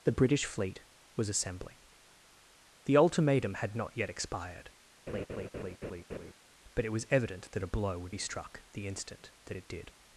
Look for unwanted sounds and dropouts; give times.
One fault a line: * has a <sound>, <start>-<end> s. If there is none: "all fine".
* has a laugh, 5.1-6.3 s